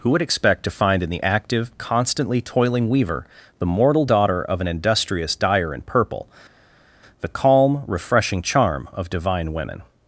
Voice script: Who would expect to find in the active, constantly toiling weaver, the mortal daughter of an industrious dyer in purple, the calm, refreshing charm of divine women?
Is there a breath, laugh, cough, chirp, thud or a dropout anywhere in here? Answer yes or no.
no